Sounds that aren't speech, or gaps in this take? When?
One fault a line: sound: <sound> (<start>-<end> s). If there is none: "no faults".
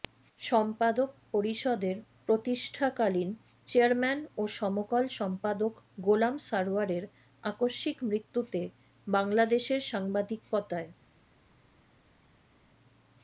no faults